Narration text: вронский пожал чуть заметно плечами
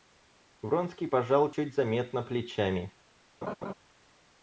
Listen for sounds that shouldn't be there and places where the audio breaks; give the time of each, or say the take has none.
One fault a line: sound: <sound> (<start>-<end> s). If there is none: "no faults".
sound: laugh (3.4-3.7 s)